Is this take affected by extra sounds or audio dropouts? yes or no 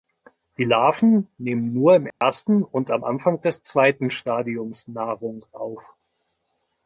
yes